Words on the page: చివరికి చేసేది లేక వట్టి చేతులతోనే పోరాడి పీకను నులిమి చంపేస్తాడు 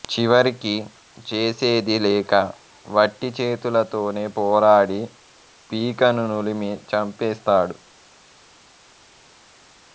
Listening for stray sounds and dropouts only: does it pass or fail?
pass